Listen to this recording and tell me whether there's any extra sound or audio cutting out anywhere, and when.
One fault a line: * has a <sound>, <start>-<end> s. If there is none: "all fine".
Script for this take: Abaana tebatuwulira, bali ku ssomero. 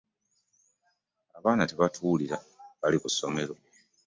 all fine